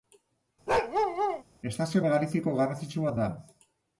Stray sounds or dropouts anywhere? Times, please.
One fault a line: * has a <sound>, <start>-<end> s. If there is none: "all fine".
* has a bark, 0.7-1.4 s